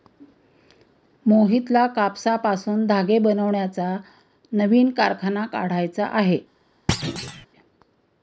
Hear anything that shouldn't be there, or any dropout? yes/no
yes